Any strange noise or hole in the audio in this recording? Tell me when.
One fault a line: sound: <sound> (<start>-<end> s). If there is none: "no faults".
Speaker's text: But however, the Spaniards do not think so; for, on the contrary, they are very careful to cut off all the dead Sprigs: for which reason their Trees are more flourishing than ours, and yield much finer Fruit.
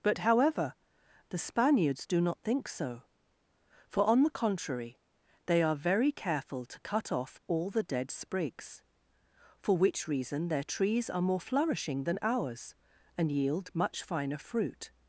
no faults